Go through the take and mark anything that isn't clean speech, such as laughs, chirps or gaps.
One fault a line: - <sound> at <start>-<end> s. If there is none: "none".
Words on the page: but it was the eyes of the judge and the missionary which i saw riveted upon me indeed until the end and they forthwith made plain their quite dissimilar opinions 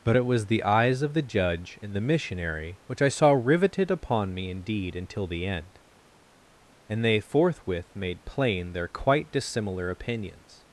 none